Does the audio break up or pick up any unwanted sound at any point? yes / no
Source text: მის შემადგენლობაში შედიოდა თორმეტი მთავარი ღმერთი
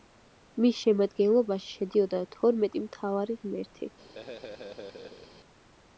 yes